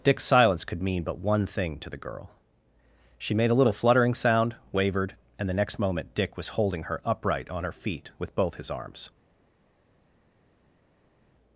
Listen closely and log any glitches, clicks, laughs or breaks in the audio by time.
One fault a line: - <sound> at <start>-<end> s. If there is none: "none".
none